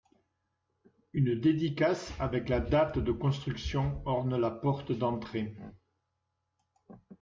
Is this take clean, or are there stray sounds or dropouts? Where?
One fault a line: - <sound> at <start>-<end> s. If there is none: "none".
none